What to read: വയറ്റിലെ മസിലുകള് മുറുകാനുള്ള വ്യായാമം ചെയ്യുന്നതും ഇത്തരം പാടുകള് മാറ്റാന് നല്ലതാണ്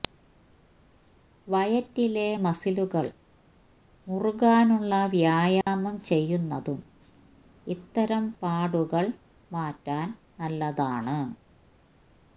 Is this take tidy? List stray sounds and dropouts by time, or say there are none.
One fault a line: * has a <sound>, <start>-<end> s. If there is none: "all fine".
* has a dropout, 5.6-5.7 s